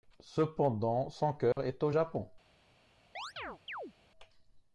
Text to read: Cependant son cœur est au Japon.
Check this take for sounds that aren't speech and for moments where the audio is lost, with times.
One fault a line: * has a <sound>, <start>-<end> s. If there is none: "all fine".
* has a dropout, 1.5-1.6 s
* has a chirp, 3.2-3.9 s